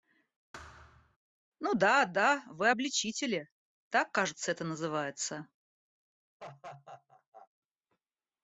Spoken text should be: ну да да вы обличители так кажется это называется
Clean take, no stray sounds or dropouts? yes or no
no